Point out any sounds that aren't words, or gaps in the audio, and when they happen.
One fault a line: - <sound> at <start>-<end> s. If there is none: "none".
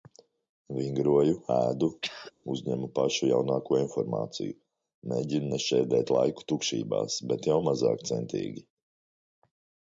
- throat clearing at 2.0-2.3 s